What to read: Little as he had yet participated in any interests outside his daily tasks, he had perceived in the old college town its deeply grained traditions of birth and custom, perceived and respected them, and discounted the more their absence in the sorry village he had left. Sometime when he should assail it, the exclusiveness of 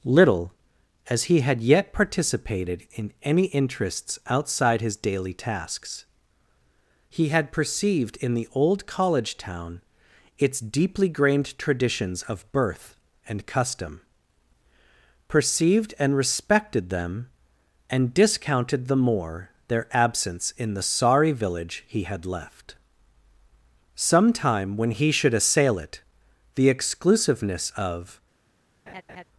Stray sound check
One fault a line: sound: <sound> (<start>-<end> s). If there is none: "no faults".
sound: laugh (28.9-29.2 s)